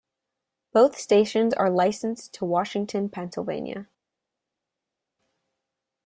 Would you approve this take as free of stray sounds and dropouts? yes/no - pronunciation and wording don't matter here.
yes